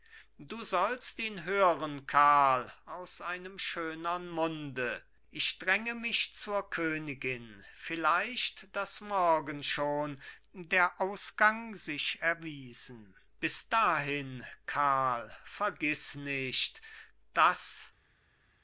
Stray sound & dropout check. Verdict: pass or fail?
pass